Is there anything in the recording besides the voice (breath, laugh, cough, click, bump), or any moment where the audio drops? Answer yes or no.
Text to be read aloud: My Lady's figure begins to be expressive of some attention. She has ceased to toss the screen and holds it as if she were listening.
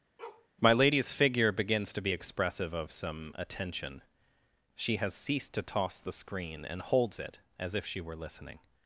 yes